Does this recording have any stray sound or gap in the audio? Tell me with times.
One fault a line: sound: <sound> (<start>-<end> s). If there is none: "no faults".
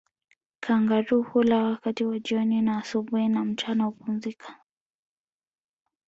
no faults